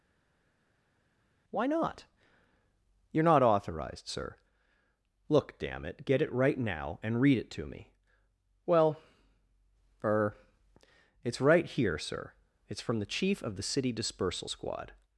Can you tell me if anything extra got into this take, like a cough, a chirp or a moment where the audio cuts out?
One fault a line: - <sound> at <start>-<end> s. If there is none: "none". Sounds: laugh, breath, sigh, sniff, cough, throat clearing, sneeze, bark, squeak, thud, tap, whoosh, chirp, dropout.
none